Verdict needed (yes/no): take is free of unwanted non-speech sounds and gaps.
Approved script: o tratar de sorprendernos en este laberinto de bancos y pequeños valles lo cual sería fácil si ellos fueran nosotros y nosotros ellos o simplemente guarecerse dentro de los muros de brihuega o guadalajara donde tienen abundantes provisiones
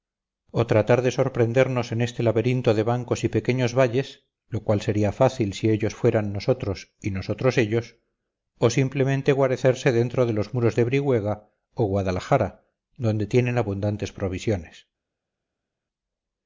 yes